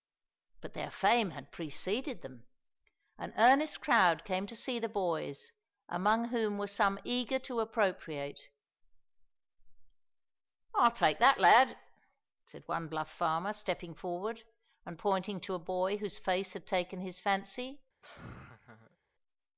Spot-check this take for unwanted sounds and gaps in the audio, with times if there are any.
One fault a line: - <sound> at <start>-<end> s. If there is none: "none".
- laugh at 18.0-19.0 s